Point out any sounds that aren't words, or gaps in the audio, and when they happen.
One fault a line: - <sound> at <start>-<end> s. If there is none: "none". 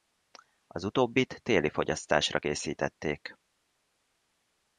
none